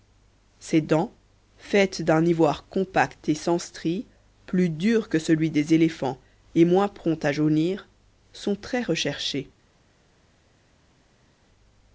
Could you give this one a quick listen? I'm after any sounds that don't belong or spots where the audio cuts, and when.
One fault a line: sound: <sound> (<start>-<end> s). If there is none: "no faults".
no faults